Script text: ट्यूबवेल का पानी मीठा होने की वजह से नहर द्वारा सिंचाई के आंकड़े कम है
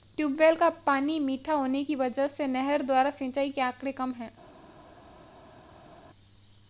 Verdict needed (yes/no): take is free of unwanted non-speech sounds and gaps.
yes